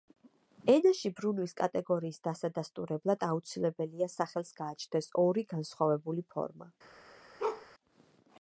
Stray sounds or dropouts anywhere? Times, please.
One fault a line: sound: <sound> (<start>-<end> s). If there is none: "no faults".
sound: bark (7.4-7.7 s)